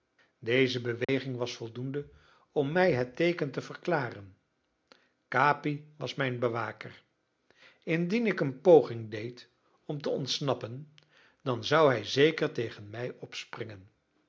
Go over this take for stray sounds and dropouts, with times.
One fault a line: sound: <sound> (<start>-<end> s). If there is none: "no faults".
sound: dropout (1.0-1.1 s)